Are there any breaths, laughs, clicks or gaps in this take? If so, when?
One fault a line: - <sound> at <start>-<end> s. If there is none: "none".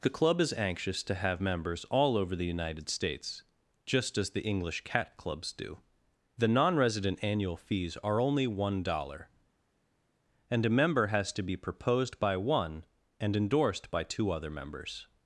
none